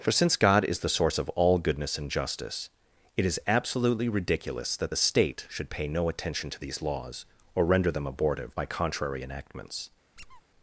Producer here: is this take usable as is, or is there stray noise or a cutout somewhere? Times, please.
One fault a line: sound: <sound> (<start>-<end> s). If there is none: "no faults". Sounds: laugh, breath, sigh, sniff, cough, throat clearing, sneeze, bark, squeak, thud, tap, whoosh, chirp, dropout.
sound: squeak (10.2-10.4 s)